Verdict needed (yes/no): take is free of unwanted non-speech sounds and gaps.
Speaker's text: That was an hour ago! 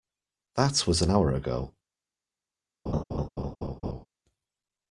no